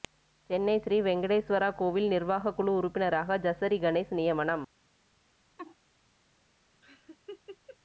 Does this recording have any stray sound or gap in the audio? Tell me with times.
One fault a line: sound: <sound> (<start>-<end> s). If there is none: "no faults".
sound: laugh (5.6-5.8 s)
sound: laugh (6.8-7.8 s)